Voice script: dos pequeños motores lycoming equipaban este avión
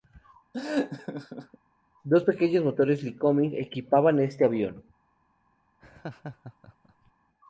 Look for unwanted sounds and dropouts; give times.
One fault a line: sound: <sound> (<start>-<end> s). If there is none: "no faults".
sound: laugh (0.5-1.6 s)
sound: laugh (5.8-7.1 s)